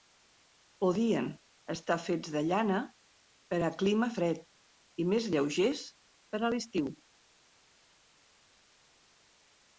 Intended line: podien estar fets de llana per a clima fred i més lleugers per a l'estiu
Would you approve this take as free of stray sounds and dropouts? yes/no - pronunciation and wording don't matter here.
yes